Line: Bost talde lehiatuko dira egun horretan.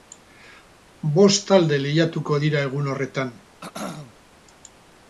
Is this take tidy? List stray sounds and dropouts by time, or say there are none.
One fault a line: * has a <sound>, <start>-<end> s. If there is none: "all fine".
* has a throat clearing, 3.6-4.1 s